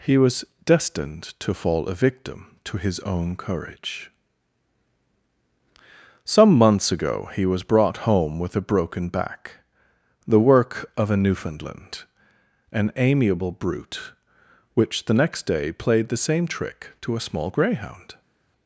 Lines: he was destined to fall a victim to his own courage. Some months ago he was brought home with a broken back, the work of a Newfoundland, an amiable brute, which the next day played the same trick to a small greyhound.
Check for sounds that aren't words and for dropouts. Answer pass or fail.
pass